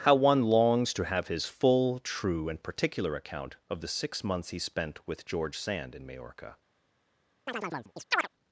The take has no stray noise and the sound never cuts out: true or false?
false